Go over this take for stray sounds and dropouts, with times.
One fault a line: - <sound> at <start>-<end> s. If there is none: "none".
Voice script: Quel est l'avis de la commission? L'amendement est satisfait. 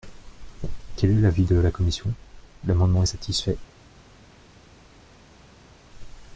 none